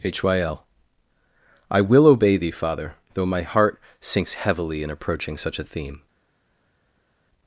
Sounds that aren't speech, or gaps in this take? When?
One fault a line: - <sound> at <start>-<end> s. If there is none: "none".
none